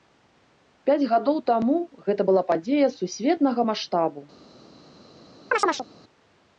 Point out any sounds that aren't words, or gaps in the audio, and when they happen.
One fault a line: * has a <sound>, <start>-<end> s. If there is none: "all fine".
* has a chirp, 5.5-5.9 s